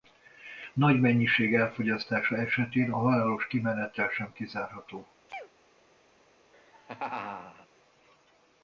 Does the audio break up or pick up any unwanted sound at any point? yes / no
yes